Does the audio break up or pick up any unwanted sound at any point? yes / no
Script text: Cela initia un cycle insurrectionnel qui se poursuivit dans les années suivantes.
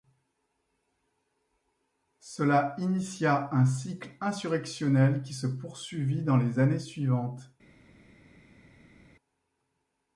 no